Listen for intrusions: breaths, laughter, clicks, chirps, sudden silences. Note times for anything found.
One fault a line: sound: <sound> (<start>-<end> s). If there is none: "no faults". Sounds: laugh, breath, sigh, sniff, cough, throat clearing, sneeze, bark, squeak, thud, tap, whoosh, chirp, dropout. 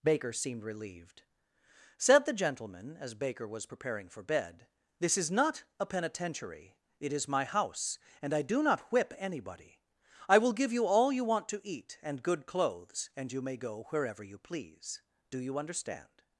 no faults